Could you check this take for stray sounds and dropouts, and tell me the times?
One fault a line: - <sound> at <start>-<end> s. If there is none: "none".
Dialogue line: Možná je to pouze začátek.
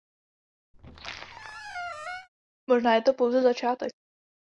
- squeak at 0.7-2.3 s